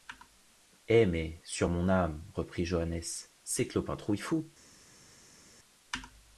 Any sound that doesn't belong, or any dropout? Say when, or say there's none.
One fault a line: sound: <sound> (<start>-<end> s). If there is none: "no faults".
no faults